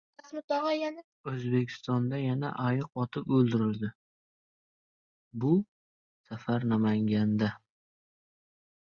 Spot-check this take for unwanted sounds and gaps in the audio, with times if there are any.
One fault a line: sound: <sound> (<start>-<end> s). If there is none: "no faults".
no faults